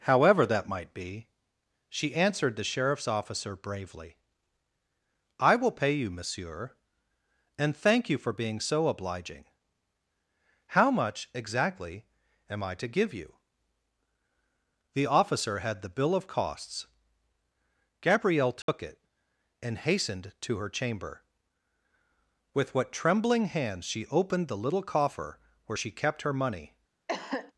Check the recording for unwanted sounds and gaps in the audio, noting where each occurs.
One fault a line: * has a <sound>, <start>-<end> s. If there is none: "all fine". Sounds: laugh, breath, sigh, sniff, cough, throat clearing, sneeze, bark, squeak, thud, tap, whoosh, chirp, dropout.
* has a dropout, 18.6-18.7 s
* has a cough, 27.1-27.5 s